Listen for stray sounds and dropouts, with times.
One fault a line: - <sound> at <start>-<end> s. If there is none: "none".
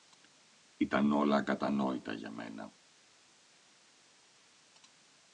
none